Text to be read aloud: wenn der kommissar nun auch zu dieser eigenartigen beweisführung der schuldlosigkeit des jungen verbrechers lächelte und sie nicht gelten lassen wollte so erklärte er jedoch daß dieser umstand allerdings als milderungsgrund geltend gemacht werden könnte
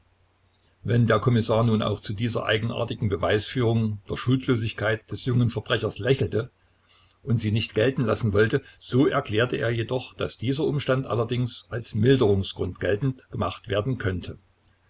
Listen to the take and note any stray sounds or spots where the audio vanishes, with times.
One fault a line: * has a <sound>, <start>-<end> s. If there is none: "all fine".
all fine